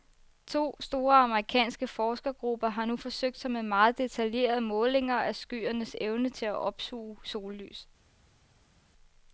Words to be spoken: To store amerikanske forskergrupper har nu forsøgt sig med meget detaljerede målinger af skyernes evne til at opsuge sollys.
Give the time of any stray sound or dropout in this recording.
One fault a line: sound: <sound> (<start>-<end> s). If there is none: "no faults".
no faults